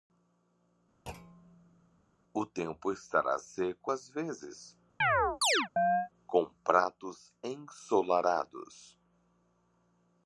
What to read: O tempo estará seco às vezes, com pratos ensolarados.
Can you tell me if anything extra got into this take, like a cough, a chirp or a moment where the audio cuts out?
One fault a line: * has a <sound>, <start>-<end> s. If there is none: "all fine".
* has a thud, 1.1-2.0 s
* has a chirp, 5.0-6.1 s